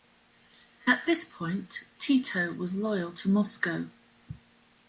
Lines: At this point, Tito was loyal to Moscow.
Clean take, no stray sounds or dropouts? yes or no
yes